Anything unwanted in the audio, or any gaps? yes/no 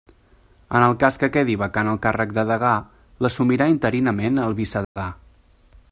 yes